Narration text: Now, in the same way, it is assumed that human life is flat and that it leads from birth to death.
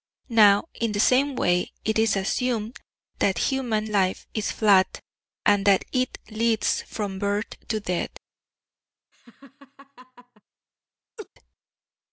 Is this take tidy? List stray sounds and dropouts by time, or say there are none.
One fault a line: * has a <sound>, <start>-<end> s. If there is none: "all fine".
* has a laugh, 9.1-10.4 s
* has a laugh, 11.2-11.3 s